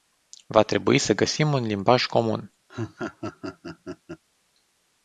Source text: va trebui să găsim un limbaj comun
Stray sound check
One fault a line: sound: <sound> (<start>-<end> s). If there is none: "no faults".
sound: laugh (2.7-4.2 s)